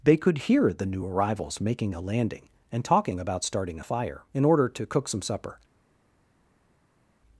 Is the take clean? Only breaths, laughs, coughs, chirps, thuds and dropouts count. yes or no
yes